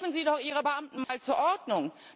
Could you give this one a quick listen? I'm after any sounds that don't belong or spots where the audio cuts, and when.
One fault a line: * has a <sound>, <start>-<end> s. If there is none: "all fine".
* has a dropout, 1.0-1.1 s